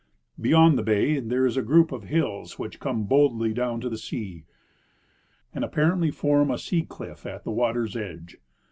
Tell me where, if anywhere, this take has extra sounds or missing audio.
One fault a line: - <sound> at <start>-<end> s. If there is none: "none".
none